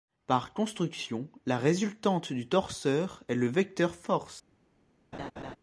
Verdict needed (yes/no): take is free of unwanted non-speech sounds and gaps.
no